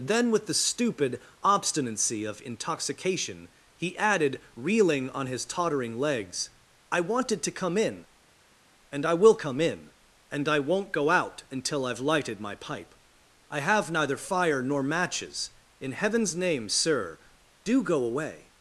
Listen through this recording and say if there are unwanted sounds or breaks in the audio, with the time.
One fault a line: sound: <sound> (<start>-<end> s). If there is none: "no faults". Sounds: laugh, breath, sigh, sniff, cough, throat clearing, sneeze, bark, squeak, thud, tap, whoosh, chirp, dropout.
no faults